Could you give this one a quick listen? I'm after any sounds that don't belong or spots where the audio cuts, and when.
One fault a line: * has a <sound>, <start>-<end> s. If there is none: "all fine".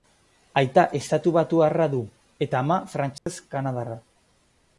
* has a dropout, 3.2-3.3 s